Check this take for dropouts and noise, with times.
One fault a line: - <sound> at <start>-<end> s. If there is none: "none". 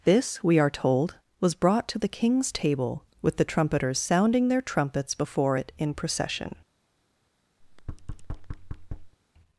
- thud at 7.6-9.2 s